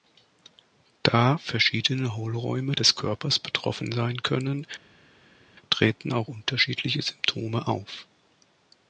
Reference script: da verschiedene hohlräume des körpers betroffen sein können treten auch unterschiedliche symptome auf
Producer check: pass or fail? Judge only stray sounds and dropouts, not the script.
pass